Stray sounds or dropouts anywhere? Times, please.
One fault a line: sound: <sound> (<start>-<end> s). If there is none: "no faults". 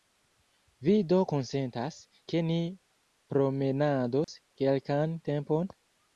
sound: dropout (4.2-4.3 s)